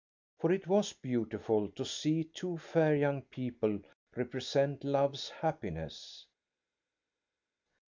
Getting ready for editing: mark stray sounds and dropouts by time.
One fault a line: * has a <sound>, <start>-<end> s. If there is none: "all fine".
all fine